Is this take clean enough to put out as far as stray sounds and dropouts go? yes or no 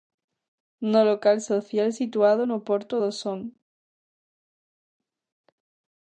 yes